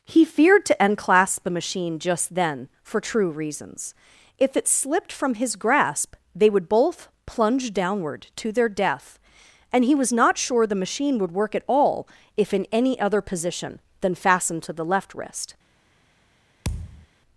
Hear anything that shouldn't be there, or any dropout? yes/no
yes